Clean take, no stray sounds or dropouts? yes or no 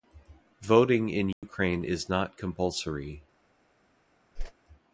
no